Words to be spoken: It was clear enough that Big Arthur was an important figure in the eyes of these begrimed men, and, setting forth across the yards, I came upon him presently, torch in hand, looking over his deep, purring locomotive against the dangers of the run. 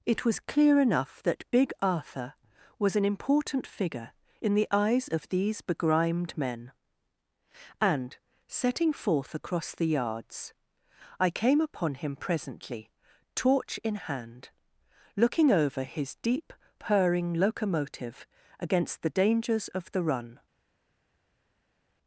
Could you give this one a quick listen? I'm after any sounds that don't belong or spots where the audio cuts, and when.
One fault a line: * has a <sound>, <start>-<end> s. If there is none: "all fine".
all fine